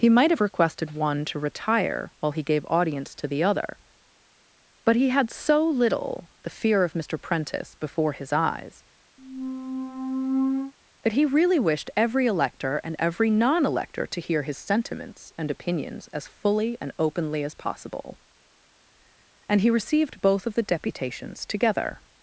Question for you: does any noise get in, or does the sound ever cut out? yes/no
yes